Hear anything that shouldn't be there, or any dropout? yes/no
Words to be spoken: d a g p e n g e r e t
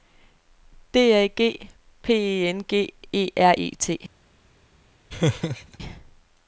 yes